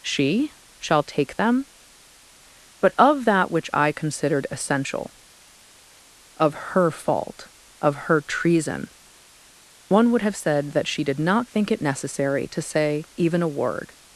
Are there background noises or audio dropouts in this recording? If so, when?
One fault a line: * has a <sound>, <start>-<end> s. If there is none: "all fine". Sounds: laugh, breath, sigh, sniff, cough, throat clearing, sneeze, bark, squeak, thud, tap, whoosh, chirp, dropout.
all fine